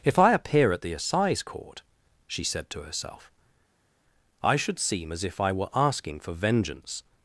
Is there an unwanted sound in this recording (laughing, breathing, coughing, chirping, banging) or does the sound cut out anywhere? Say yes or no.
no